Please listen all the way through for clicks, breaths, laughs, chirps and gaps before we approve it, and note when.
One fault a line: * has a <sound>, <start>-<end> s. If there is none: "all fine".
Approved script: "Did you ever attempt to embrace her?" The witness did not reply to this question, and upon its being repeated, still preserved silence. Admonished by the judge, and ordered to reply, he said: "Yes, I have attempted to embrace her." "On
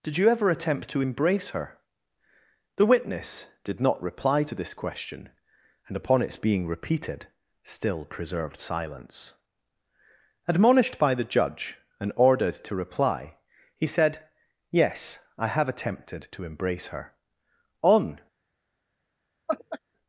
* has a laugh, 19.5-19.8 s